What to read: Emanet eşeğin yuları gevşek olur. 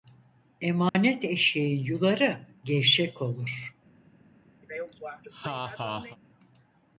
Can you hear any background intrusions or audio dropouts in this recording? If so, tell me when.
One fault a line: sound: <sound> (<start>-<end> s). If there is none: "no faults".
sound: dropout (0.9-0.9 s)
sound: laugh (4.6-6.2 s)